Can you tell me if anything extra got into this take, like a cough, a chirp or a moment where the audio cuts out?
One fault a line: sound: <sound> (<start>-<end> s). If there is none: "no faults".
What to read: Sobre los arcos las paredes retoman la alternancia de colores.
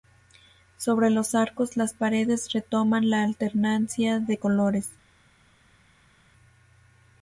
no faults